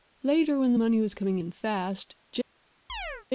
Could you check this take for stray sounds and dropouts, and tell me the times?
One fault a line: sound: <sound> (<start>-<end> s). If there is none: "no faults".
sound: chirp (2.9-3.3 s)